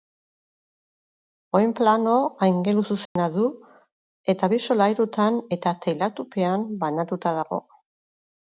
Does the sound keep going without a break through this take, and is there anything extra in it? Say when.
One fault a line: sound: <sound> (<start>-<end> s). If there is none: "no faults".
sound: dropout (3.1-3.2 s)